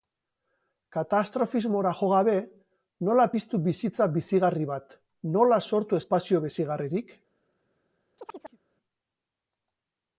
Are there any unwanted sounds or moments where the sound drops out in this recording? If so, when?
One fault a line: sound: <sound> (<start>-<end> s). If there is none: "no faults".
sound: chirp (8.2-8.6 s)